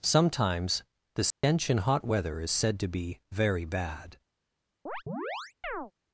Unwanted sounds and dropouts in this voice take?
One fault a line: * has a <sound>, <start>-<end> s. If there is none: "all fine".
* has a dropout, 1.3-1.4 s
* has a chirp, 4.9-5.9 s